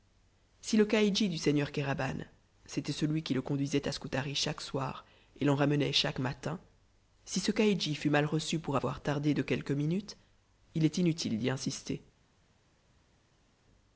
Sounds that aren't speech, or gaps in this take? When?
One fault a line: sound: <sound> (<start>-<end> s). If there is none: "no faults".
no faults